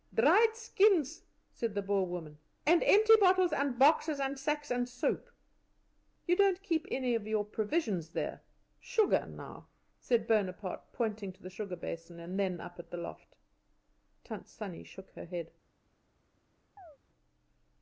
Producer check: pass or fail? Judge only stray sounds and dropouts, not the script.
fail